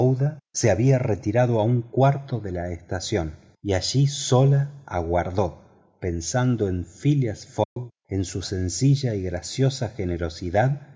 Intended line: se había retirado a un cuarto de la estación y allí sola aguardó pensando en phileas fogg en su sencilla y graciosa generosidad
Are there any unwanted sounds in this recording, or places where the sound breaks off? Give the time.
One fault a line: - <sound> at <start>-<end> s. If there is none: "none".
- dropout at 7.6-7.8 s